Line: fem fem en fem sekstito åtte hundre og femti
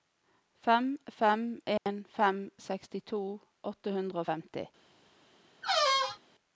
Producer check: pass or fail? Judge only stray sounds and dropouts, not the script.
fail